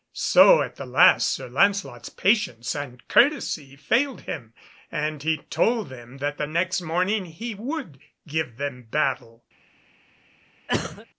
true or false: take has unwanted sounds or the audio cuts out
true